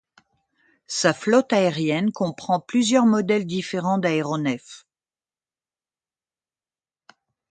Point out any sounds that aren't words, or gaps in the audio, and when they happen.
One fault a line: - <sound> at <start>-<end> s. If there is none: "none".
none